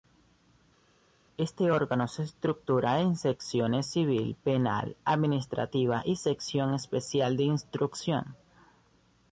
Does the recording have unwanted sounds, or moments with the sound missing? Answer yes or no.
no